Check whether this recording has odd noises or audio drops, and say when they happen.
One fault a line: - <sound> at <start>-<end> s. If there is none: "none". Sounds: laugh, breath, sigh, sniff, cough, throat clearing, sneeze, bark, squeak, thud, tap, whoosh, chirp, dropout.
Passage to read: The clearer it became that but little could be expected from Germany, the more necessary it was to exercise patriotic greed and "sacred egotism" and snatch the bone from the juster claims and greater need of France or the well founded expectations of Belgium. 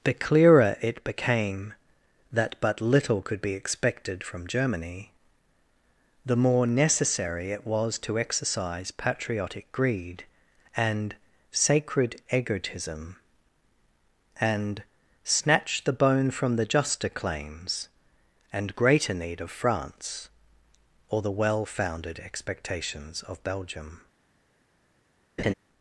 - laugh at 25.4-25.5 s